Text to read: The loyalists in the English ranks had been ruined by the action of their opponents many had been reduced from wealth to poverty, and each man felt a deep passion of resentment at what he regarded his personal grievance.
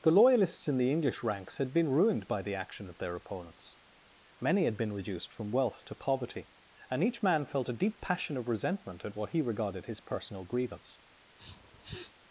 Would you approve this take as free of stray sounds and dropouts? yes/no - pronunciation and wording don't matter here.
no